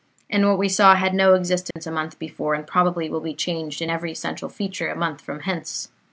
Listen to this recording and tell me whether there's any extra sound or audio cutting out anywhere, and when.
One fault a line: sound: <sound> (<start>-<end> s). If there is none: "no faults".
sound: dropout (1.7-1.8 s)